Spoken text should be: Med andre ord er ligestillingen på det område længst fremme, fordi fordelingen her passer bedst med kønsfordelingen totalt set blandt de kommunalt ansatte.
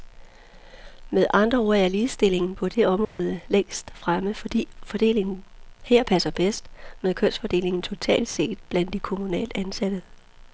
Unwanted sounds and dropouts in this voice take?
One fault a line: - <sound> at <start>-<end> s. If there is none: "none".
- dropout at 3.0-3.2 s